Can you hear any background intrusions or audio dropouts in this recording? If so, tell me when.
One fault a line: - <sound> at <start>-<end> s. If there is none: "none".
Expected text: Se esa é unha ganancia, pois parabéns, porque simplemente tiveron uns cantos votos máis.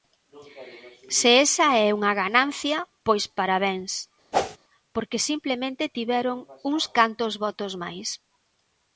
- whoosh at 4.3-4.6 s